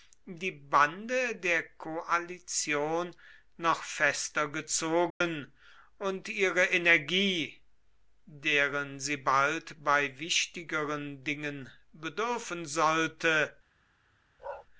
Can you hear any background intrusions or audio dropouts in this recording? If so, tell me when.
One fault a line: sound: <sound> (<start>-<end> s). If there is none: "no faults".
sound: dropout (5.1-5.2 s)
sound: bark (14.4-14.7 s)